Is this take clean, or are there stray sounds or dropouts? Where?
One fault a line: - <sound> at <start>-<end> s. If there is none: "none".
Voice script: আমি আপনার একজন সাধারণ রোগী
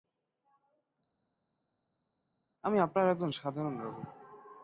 none